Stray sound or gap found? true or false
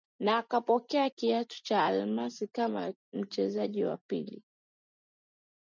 false